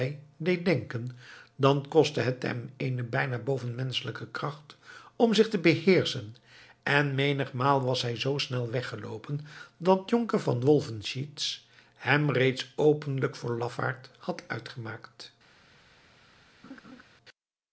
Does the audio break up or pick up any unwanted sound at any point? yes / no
yes